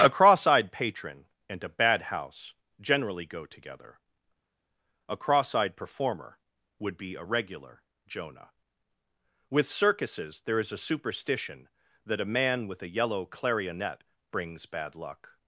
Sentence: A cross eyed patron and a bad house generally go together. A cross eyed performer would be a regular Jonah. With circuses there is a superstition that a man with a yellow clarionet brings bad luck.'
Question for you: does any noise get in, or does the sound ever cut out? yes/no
no